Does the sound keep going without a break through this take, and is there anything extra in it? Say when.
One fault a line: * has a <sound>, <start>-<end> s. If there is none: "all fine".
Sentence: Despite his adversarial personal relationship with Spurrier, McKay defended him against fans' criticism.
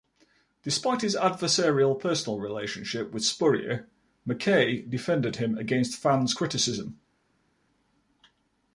all fine